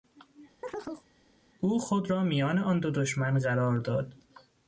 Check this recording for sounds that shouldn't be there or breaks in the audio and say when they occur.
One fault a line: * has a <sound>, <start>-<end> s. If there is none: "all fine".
* has a chirp, 0.6-1.1 s